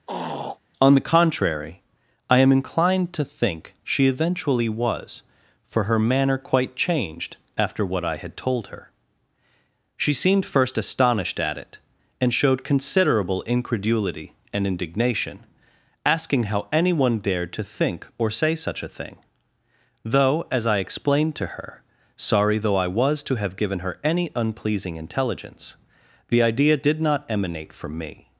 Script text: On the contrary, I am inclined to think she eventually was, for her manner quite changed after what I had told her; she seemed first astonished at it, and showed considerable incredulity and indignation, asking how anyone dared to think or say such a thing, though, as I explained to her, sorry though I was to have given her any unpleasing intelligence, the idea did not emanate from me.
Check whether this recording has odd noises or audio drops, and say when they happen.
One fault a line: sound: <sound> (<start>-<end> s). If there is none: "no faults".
sound: throat clearing (0.1-0.6 s)